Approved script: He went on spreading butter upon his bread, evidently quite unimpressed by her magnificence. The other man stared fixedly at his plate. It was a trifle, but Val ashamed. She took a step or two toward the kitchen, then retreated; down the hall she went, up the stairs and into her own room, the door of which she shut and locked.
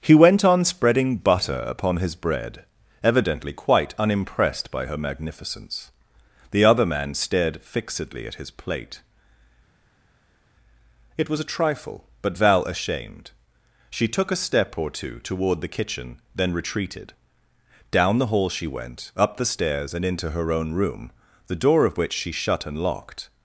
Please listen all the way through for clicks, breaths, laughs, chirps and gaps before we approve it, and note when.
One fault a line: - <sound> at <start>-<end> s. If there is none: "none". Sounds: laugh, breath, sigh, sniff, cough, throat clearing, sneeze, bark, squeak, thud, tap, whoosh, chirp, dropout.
none